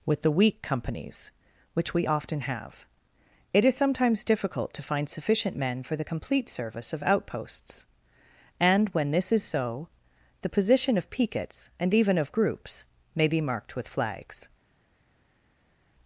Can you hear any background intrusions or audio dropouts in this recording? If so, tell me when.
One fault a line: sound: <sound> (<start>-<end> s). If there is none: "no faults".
no faults